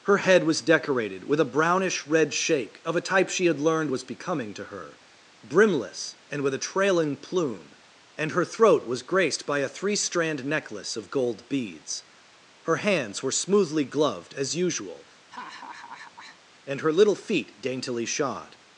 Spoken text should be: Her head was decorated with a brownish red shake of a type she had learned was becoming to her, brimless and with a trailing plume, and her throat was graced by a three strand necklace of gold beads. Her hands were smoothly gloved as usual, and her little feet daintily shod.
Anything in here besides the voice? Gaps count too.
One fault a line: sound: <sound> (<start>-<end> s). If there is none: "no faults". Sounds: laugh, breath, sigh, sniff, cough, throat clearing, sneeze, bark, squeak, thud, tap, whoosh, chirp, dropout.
sound: laugh (15.3-16.4 s)